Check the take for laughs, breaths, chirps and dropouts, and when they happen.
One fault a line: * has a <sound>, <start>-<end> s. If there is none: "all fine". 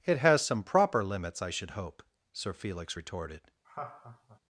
* has a laugh, 3.6-4.4 s